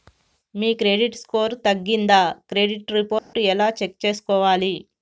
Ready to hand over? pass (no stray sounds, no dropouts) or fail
fail